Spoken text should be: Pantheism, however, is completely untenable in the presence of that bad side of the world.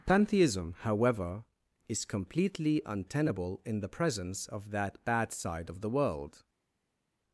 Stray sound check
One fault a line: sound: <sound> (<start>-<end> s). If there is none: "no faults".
no faults